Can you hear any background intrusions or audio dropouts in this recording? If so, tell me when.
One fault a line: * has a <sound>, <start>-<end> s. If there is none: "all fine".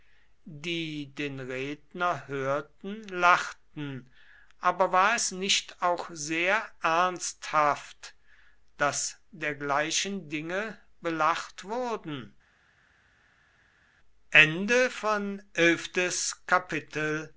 all fine